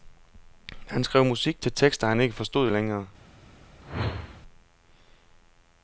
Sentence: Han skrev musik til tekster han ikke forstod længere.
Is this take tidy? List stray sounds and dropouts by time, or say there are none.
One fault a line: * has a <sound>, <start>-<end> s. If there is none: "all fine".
* has a whoosh, 3.8-4.4 s